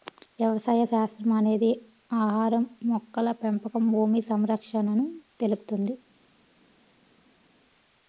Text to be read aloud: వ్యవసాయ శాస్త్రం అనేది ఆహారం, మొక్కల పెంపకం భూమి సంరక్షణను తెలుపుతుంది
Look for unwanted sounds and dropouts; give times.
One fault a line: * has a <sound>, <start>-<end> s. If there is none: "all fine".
all fine